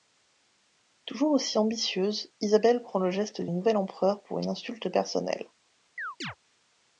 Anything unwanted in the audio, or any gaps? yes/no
yes